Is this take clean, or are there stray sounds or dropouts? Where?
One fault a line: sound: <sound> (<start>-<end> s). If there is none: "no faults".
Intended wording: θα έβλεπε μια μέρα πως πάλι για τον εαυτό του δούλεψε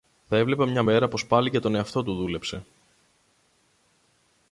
no faults